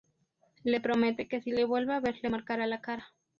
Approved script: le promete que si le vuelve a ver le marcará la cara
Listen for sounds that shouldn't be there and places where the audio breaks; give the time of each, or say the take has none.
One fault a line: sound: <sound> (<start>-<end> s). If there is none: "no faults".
no faults